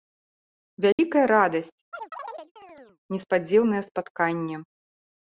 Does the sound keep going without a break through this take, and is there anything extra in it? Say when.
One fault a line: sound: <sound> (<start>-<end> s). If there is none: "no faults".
sound: dropout (0.9-1.0 s)
sound: chirp (1.9-3.0 s)